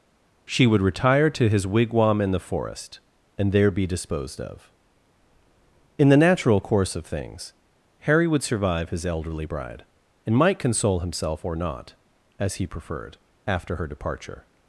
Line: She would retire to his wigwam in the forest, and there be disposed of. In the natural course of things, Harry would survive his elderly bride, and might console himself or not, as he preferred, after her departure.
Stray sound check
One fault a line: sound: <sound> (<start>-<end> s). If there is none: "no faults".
no faults